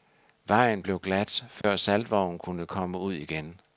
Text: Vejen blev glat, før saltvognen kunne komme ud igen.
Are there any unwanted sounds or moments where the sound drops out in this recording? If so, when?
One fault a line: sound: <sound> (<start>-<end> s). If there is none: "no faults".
sound: dropout (1.6-1.6 s)